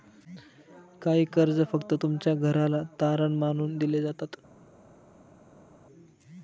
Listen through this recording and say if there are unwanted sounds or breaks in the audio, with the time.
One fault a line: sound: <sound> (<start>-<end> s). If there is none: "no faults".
no faults